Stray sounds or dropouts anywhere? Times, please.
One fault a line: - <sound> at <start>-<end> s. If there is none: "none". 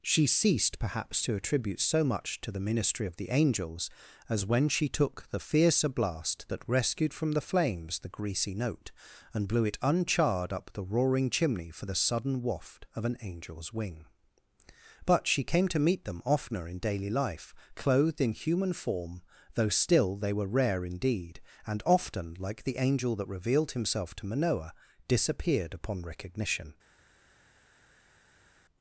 none